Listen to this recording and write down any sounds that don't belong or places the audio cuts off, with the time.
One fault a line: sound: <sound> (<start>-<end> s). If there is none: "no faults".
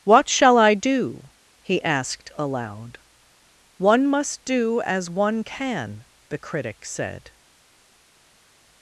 no faults